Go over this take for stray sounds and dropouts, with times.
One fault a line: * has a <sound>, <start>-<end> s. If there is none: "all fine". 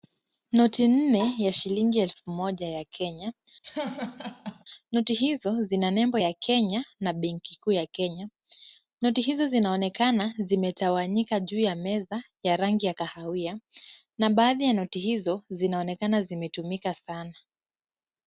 * has a laugh, 3.6-4.6 s